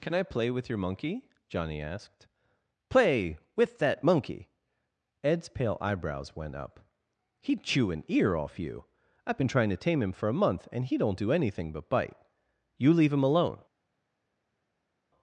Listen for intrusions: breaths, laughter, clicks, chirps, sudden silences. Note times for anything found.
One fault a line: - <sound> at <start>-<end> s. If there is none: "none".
none